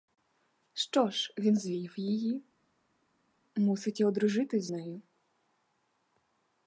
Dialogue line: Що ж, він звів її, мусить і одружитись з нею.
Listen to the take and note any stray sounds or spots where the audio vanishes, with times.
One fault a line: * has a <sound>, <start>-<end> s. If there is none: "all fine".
all fine